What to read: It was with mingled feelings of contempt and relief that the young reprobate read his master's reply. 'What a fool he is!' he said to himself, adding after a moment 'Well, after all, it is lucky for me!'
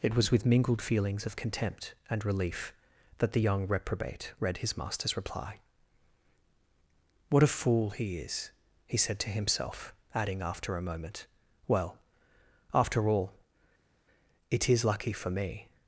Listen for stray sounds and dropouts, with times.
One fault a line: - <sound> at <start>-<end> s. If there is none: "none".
none